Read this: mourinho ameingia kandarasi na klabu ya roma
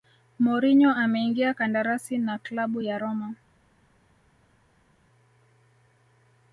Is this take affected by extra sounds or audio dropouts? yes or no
no